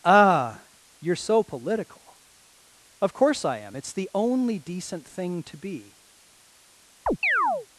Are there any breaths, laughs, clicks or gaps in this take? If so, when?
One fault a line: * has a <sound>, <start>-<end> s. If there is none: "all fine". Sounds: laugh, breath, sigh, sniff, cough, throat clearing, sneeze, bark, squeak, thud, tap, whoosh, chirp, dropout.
* has a chirp, 7.1-7.7 s